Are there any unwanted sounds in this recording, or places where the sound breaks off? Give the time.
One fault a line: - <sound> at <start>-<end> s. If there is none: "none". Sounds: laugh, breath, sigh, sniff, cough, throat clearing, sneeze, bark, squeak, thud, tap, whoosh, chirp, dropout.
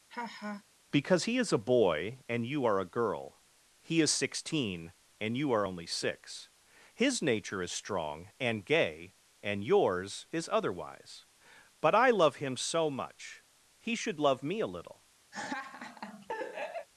- laugh at 0.1-0.6 s
- laugh at 15.3-16.9 s